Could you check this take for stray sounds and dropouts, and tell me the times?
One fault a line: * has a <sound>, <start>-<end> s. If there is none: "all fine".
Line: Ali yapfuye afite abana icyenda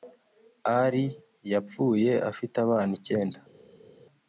all fine